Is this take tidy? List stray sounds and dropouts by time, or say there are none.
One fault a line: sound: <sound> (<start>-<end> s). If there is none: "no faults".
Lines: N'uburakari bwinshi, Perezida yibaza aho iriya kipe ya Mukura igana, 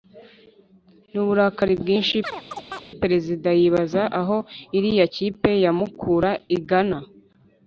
sound: chirp (2.2-2.9 s)